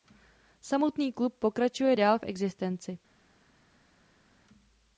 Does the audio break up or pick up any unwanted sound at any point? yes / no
no